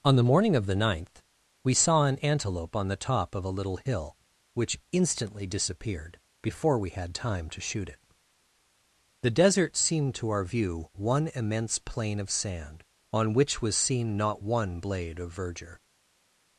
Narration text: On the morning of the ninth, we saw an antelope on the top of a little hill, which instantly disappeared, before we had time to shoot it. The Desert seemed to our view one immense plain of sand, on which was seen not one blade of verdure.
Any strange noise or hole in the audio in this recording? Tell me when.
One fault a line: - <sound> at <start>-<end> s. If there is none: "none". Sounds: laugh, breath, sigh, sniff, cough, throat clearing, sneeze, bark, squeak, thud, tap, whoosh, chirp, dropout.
none